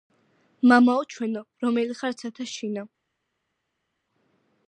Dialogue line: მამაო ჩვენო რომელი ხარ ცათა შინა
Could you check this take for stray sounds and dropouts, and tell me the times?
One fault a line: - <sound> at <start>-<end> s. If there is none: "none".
none